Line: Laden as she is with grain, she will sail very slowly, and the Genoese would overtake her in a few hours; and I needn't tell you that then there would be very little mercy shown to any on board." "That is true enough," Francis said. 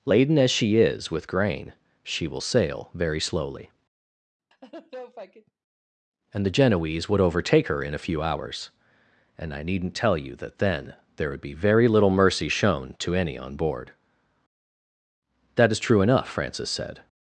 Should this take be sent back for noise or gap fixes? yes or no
yes